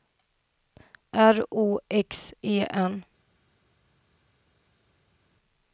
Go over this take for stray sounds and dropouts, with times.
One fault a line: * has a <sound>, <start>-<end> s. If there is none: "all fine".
all fine